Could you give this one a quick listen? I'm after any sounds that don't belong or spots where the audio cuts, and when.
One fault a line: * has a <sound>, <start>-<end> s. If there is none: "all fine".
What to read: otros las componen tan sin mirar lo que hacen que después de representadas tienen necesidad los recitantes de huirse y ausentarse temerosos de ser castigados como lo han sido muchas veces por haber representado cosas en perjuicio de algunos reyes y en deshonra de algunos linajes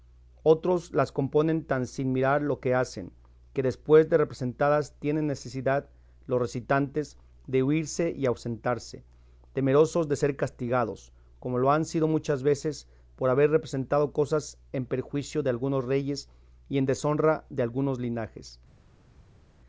all fine